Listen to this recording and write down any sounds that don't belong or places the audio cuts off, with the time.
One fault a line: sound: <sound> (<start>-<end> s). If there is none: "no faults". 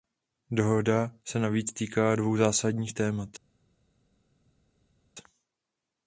no faults